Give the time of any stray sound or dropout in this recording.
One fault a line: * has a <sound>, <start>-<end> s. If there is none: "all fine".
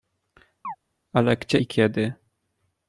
* has a chirp, 0.6-0.8 s